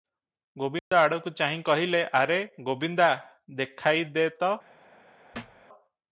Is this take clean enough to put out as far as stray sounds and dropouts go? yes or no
no